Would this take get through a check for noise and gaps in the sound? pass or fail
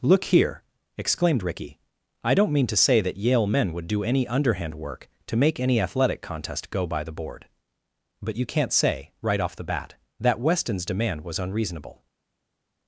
pass